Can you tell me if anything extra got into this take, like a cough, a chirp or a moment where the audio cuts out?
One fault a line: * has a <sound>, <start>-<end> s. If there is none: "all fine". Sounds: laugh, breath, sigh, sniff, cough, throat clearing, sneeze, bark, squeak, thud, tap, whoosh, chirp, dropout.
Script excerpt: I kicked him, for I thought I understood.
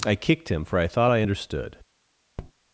* has a tap, 2.4-2.5 s